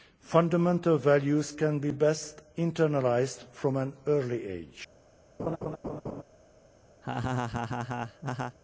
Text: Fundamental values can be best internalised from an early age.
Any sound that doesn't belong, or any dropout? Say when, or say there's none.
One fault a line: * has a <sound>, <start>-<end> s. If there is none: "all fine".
* has a laugh, 5.4-6.2 s
* has a laugh, 7.0-8.6 s